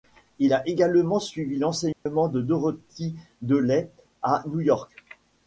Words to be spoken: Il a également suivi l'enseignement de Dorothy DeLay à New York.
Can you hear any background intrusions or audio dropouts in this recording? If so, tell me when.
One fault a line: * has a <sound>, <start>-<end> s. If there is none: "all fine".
* has a dropout, 1.9-2.1 s